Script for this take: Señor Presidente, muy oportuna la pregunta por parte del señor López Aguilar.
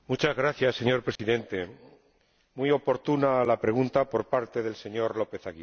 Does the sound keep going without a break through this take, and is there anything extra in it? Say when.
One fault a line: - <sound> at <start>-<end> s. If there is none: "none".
- dropout at 1.2-1.2 s